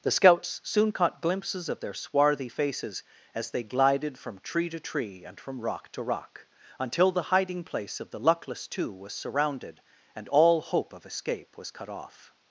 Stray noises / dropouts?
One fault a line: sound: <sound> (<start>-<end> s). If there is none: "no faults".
no faults